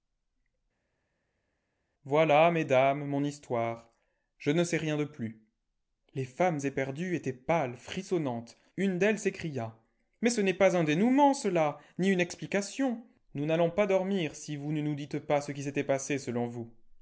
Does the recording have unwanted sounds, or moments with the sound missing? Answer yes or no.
no